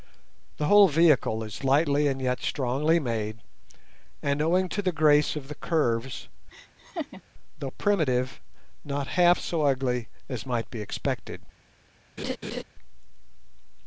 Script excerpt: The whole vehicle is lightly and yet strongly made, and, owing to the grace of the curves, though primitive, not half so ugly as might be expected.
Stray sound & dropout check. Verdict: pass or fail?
fail